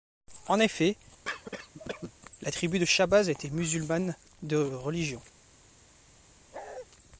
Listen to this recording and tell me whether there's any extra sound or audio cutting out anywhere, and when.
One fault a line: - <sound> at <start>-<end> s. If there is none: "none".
- cough at 1.3-2.1 s
- bark at 6.5-6.9 s